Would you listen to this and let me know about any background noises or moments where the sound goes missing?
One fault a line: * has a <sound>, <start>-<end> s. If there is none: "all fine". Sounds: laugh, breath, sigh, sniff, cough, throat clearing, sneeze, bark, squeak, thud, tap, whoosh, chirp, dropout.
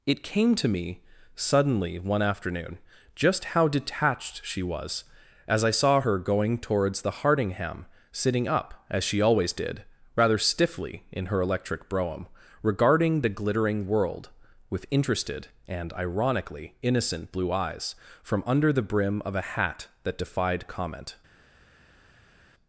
all fine